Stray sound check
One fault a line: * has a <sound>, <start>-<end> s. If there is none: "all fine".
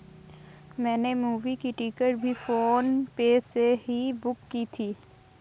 all fine